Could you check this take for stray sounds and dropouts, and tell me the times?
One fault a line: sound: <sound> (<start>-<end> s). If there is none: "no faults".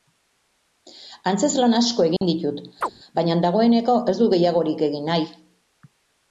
sound: dropout (2.2-2.2 s)
sound: chirp (2.8-2.9 s)